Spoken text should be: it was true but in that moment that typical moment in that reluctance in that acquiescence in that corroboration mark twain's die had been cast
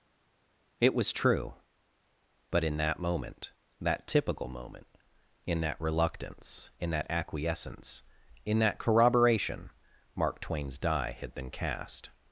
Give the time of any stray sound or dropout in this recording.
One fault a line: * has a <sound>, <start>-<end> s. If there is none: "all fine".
all fine